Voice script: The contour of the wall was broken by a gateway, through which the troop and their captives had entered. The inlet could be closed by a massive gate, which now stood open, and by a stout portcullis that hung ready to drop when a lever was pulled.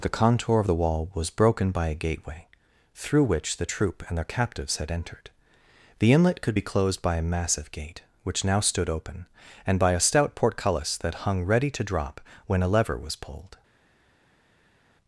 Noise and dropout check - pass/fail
pass